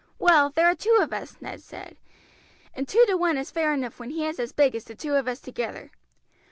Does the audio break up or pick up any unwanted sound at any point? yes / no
no